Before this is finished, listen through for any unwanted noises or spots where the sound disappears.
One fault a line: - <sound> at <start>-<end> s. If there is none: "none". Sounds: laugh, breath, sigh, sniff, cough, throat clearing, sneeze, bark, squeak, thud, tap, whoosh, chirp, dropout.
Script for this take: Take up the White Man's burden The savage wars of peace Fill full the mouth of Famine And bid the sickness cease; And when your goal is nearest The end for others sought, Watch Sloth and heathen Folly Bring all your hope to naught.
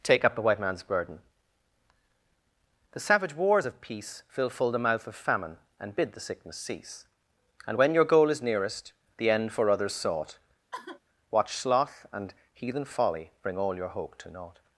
- sigh at 10.7-11.0 s